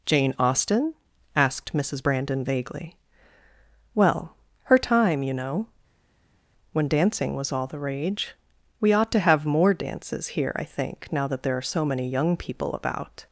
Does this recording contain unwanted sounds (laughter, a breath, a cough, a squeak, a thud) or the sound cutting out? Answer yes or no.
no